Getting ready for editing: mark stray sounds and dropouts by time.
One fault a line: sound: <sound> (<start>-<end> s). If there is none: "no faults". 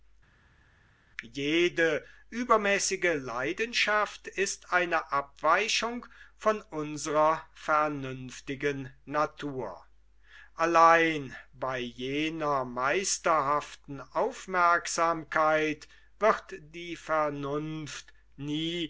no faults